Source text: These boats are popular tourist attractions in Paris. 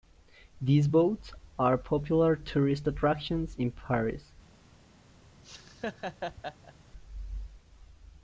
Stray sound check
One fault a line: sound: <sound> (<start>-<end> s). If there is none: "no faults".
sound: laugh (5.4-6.7 s)